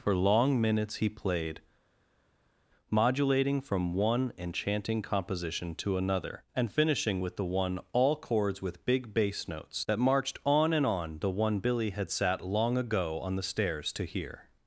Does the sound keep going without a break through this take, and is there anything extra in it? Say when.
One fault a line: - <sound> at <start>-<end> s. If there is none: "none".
none